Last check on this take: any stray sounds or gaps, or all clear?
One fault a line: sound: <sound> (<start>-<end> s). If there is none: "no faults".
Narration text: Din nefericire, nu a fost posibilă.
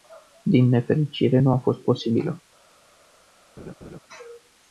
sound: laugh (3.6-4.0 s)